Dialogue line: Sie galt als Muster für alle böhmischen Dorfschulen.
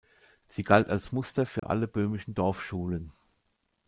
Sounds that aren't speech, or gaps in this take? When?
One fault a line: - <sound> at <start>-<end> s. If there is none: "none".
- dropout at 1.6-1.6 s